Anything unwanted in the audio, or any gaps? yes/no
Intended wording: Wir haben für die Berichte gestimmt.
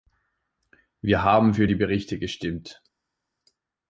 no